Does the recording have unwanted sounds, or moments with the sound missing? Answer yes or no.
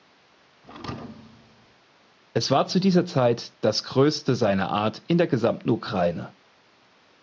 yes